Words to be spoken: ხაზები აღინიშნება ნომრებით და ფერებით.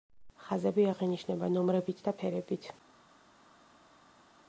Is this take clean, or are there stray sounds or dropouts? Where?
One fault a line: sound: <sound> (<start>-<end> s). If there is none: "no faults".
no faults